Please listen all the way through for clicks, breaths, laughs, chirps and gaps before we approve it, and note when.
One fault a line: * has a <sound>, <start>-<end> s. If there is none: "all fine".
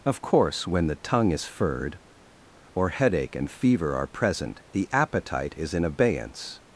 all fine